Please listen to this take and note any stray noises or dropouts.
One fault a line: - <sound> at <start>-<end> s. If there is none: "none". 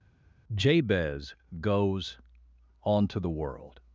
none